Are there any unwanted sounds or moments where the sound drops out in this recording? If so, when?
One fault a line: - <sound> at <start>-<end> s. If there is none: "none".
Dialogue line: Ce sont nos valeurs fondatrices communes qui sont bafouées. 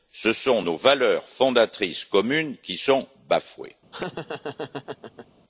- laugh at 3.9-5.3 s